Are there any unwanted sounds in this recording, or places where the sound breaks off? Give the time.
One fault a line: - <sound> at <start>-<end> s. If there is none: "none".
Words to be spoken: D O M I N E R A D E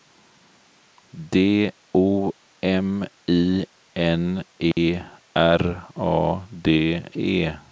- dropout at 4.7-4.8 s